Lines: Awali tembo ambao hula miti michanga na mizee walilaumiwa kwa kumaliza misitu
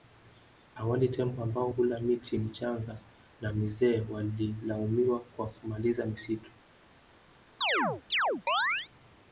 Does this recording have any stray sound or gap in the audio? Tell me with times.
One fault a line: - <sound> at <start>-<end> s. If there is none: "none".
- chirp at 7.6-8.9 s